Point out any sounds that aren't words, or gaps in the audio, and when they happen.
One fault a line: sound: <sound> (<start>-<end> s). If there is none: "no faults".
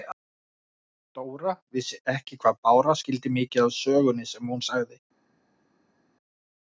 no faults